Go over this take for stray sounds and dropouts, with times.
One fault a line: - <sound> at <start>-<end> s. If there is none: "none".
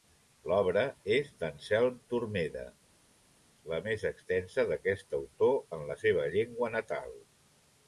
none